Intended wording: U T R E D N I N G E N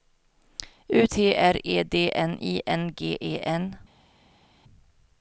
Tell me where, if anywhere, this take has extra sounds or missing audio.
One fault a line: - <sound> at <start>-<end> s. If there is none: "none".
none